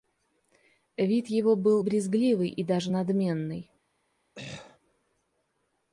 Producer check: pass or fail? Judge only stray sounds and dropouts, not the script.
fail